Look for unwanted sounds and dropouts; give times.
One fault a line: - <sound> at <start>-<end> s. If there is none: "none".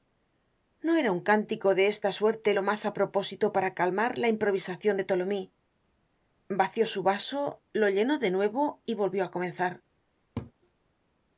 - laugh at 10.4-10.5 s